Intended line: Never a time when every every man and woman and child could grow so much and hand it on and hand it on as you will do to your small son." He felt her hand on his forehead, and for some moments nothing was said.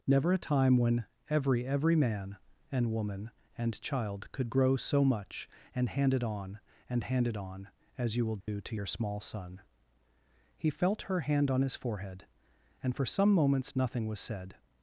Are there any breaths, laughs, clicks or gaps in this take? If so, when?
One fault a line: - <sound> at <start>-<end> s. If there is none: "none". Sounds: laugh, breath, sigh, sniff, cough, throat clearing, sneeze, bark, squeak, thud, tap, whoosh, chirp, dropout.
- dropout at 8.4-8.5 s